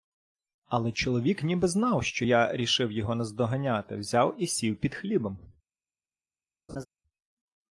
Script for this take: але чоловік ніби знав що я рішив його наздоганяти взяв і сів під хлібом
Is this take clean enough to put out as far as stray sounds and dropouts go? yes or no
no